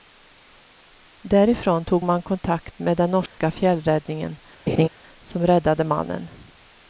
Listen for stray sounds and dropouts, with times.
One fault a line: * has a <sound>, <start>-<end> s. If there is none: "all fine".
* has a dropout, 3.3-3.4 s
* has a laugh, 4.7-4.9 s